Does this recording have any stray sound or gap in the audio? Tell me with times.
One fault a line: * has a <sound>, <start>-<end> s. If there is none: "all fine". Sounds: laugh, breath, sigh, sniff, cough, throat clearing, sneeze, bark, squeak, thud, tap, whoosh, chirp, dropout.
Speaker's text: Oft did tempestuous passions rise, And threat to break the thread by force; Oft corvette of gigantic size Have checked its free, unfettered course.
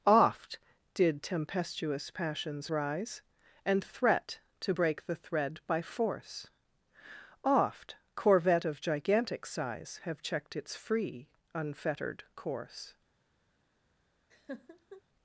* has a laugh, 14.3-15.0 s